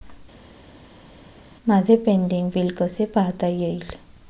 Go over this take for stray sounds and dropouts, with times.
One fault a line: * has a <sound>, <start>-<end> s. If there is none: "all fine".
all fine